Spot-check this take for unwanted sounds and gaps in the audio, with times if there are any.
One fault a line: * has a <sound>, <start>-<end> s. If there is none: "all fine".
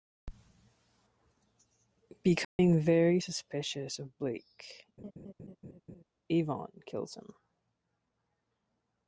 * has a dropout, 2.4-2.6 s
* has a laugh, 5.0-6.0 s